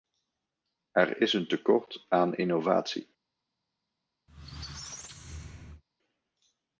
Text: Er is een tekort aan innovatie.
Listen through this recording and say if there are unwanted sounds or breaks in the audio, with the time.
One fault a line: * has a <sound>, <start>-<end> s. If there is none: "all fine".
* has a squeak, 4.3-5.8 s